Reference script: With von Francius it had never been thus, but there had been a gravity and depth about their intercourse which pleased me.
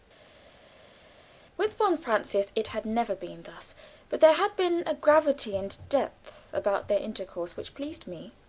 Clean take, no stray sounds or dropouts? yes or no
yes